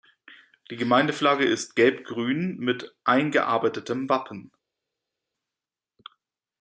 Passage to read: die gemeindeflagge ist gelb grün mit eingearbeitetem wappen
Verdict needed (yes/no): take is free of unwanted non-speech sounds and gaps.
yes